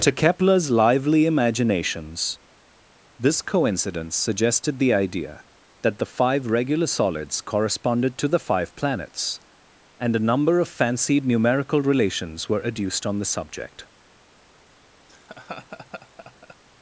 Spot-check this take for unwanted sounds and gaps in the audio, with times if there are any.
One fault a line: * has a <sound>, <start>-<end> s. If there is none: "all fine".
* has a laugh, 15.1-16.6 s